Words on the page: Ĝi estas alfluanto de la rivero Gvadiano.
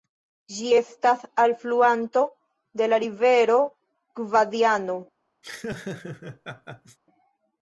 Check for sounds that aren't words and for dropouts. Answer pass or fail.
fail